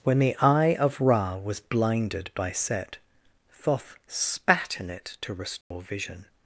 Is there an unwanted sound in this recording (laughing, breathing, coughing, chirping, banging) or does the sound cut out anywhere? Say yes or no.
yes